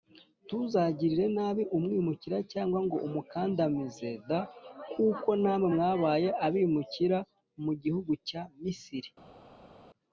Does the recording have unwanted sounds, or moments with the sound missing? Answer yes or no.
no